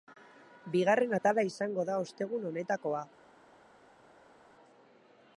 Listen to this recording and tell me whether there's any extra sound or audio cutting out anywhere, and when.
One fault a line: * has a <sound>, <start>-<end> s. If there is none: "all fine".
all fine